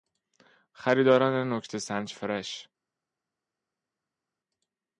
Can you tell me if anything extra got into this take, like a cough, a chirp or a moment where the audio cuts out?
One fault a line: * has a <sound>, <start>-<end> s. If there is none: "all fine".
all fine